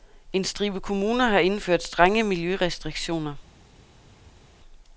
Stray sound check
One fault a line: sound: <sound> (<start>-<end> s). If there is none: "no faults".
no faults